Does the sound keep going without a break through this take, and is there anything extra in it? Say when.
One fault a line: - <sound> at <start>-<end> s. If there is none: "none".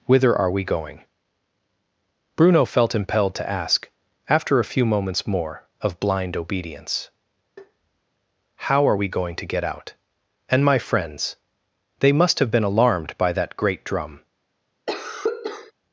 - tap at 7.6-8.0 s
- cough at 14.9-15.7 s